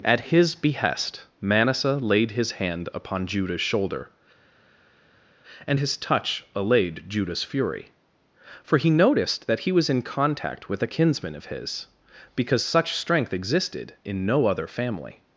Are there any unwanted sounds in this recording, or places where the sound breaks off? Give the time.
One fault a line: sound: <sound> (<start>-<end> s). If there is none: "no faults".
no faults